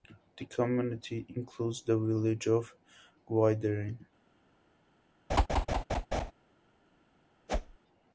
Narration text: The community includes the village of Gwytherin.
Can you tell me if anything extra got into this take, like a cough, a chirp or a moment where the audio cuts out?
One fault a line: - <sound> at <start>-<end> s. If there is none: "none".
- laugh at 5.3-6.3 s
- whoosh at 7.5-7.8 s